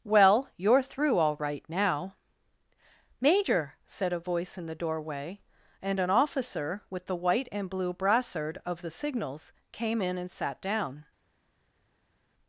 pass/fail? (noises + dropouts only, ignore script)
pass